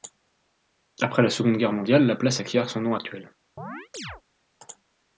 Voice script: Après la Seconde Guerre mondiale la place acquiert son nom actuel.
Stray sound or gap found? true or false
true